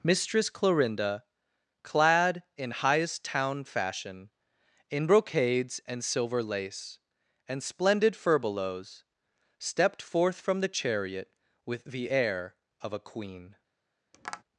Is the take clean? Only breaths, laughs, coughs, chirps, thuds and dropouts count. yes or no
no